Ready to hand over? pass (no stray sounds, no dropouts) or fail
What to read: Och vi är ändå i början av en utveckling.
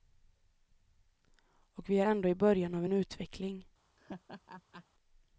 fail